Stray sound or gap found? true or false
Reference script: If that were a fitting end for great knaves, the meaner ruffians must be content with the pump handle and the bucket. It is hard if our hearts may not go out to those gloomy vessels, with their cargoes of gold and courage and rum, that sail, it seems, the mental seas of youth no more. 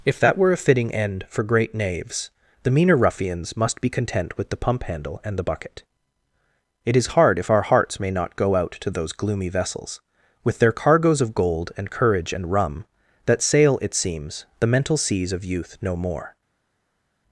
false